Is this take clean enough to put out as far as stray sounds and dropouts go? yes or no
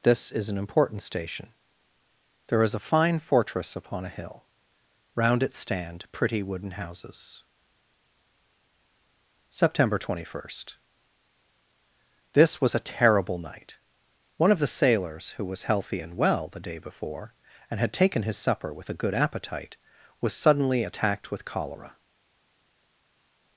yes